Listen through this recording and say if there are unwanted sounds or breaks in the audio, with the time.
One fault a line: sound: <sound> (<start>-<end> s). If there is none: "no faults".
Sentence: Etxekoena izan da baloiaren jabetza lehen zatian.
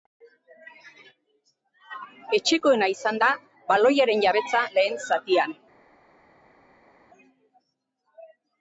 no faults